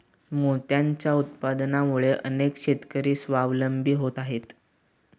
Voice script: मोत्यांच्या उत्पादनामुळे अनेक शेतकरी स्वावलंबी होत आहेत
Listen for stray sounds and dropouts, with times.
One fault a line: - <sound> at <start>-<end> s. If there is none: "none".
none